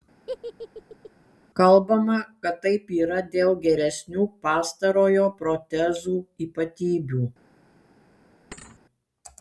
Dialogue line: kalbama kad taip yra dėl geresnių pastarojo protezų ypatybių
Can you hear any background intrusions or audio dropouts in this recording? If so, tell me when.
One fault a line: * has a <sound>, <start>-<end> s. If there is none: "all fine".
* has a laugh, 0.3-1.1 s
* has a thud, 8.5-8.8 s